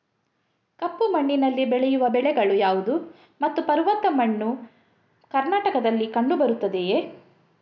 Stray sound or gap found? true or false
false